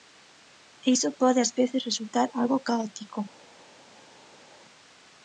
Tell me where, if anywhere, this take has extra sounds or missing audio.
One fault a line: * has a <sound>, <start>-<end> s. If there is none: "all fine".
all fine